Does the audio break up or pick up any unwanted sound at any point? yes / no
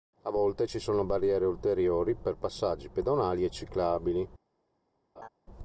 yes